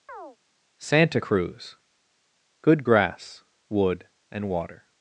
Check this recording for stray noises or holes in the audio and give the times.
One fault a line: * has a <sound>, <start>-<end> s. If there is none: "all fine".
* has a chirp, 0.1-0.4 s